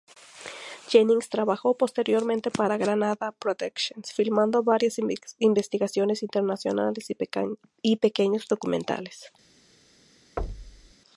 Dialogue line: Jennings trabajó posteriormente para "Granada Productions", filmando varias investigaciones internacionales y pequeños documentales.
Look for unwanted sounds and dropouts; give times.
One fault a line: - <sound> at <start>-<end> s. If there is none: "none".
- thud at 10.4-10.9 s